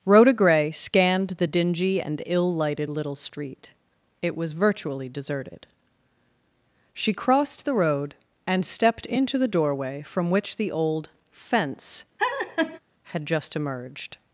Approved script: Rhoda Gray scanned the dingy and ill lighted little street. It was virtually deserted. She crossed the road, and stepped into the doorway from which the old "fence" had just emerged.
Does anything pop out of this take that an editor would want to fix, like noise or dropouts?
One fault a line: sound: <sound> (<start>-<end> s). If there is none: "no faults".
sound: laugh (12.2-12.8 s)